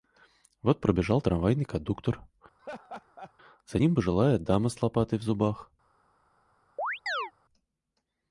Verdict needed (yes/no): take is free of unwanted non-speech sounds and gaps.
no